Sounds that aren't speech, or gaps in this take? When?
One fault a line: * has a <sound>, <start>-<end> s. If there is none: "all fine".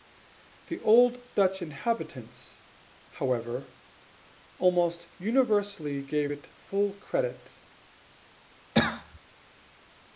* has a cough, 8.7-9.2 s